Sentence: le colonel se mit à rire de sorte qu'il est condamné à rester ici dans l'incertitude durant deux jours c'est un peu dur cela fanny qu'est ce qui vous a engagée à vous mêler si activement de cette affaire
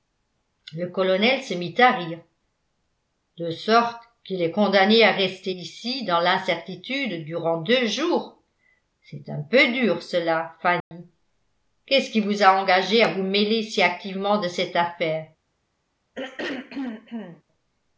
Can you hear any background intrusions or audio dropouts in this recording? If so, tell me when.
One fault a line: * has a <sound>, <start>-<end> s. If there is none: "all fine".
* has a dropout, 10.8-10.9 s
* has a throat clearing, 16.1-17.4 s